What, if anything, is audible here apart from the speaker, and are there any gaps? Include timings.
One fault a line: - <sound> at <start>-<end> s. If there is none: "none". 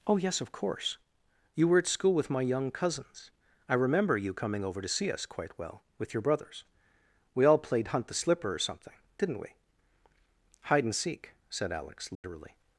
- dropout at 12.1-12.2 s